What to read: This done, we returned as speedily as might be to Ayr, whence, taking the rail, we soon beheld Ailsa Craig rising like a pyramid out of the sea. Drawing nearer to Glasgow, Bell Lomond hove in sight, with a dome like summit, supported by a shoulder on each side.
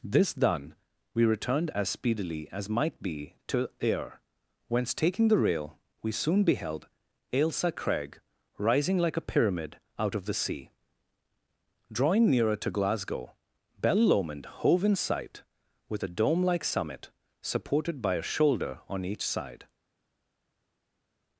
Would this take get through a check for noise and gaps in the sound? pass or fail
pass